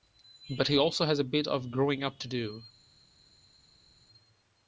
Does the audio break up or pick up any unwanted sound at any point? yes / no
no